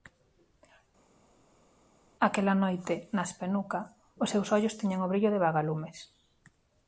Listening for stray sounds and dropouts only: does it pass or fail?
pass